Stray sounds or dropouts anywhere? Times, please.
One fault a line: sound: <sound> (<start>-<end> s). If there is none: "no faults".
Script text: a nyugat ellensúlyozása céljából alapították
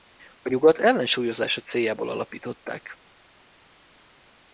no faults